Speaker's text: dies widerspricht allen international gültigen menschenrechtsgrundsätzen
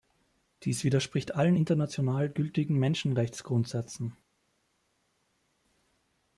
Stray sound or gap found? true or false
false